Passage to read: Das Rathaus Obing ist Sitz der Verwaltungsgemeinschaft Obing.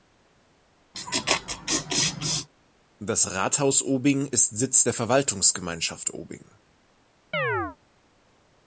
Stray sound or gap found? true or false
true